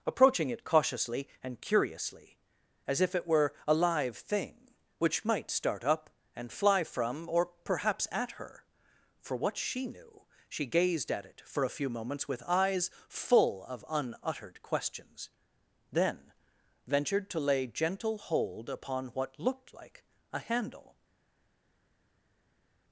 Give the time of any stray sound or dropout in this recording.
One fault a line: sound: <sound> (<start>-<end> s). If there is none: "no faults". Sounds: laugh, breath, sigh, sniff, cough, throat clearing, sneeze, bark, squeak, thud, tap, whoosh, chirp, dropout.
no faults